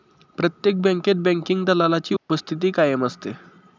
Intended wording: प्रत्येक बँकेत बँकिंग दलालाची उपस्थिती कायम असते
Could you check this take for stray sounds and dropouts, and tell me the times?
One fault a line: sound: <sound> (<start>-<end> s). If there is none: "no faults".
sound: dropout (2.2-2.3 s)